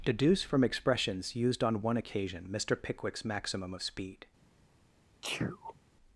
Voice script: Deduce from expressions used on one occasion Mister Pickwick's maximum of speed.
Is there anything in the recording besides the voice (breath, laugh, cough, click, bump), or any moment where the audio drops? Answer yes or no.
yes